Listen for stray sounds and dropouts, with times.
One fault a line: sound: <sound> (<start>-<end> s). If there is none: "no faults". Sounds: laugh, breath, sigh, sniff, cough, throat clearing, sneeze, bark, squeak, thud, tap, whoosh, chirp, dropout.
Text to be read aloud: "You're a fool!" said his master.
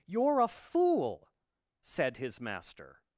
no faults